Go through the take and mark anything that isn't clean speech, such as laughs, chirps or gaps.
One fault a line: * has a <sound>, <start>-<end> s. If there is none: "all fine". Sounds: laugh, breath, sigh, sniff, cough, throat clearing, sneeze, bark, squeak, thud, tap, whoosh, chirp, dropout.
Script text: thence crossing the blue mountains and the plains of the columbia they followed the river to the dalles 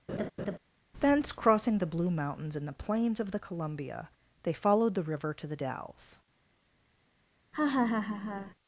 * has a laugh, 0.1-0.6 s
* has a laugh, 7.5-8.5 s